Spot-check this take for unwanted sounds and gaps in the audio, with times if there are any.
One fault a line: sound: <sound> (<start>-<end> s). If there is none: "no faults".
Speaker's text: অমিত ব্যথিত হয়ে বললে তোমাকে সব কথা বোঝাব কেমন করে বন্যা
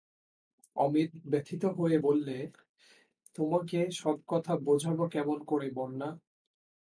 no faults